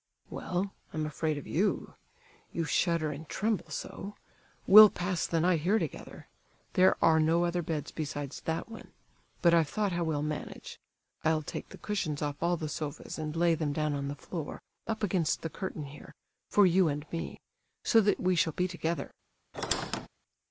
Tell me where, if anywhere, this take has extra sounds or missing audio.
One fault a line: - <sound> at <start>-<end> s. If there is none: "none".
- squeak at 19.5-20.1 s